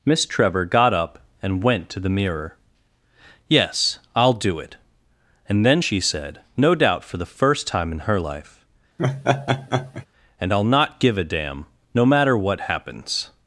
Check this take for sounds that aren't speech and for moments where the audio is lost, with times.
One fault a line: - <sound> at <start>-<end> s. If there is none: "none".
- laugh at 9.0-10.1 s